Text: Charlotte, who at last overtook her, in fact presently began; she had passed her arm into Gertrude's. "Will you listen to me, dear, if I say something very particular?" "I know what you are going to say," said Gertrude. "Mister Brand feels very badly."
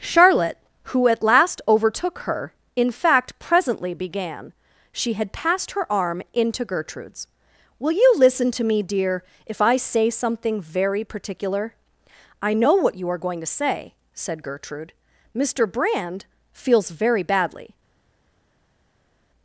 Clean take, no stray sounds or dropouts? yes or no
yes